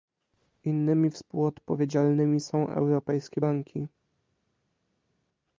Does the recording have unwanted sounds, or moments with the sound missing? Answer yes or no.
no